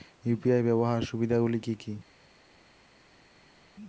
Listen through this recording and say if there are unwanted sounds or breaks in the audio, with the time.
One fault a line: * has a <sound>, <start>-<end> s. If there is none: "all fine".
all fine